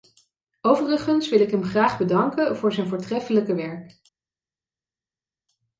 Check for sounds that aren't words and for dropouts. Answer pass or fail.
pass